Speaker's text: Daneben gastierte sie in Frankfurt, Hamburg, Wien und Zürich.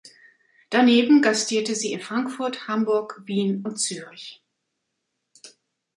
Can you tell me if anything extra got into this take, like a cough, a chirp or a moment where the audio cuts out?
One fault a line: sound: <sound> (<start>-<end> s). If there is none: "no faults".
no faults